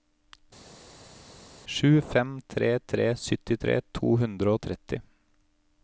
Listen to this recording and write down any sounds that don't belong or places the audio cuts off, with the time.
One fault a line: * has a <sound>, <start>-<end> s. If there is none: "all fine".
all fine